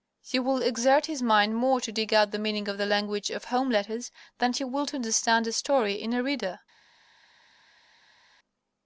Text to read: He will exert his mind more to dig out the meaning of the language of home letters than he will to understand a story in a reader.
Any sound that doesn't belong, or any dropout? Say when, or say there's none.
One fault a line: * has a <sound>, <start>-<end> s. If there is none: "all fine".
all fine